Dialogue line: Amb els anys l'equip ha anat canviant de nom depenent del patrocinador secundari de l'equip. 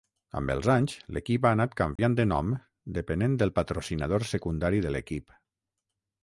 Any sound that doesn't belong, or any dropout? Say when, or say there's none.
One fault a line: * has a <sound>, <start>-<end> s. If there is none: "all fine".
* has a dropout, 2.0-2.0 s